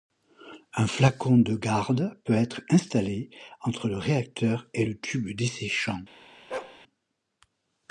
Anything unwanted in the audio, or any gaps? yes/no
yes